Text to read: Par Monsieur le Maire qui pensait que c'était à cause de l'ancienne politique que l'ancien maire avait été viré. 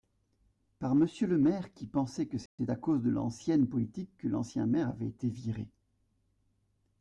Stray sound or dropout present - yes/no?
yes